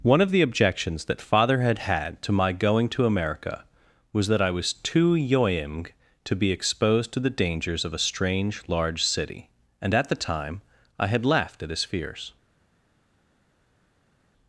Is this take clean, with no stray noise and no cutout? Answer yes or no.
yes